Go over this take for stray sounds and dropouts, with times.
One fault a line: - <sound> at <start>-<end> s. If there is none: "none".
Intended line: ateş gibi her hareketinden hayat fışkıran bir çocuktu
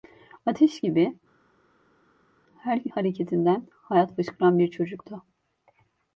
none